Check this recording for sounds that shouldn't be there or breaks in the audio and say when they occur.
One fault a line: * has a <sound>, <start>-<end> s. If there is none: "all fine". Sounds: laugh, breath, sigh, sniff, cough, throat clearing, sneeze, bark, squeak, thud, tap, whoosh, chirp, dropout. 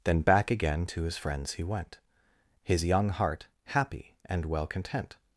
all fine